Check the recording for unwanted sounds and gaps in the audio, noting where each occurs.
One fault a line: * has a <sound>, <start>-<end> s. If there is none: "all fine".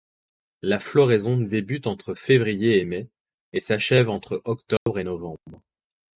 * has a dropout, 4.8-4.9 s